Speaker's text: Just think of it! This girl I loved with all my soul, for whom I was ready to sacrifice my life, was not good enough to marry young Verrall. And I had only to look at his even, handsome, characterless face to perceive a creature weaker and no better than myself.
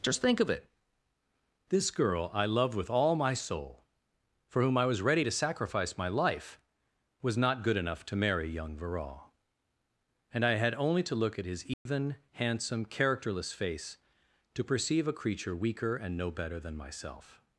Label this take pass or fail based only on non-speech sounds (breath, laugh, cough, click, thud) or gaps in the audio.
fail